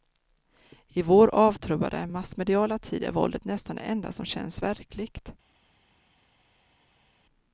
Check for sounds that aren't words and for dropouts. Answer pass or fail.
pass